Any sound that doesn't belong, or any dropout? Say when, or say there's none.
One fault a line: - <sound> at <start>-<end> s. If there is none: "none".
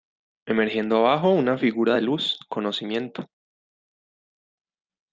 none